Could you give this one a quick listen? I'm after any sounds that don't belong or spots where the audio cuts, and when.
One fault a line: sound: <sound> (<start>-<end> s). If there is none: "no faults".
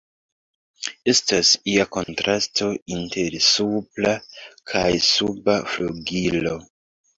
sound: dropout (2.0-2.1 s)